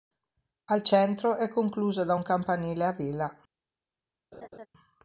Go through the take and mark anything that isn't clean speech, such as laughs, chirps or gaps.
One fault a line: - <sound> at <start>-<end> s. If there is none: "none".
- laugh at 4.3-4.7 s